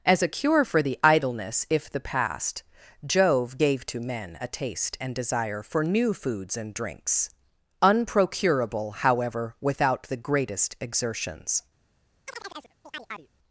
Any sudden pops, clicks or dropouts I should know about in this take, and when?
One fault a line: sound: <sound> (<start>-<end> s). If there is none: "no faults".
sound: chirp (12.3-13.3 s)